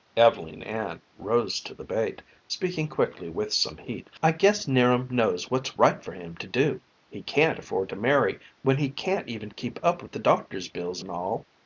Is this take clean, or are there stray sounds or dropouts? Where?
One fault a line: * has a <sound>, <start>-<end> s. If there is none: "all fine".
all fine